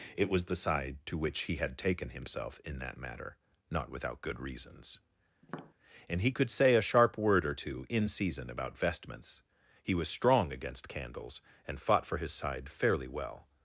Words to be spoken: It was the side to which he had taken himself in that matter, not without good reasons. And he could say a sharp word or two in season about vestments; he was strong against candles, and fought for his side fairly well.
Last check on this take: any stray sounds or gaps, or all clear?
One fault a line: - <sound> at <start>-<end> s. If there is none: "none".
- tap at 5.4-5.7 s